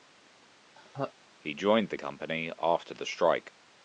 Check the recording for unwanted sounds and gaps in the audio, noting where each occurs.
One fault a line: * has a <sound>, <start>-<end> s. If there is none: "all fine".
* has a laugh, 0.8-1.1 s